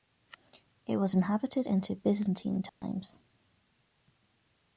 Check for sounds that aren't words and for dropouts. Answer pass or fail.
fail